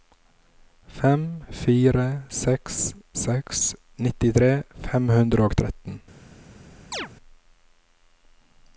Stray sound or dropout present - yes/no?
yes